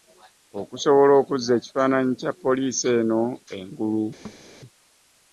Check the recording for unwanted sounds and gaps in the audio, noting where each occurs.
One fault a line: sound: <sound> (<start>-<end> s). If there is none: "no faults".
sound: thud (4.2-4.4 s)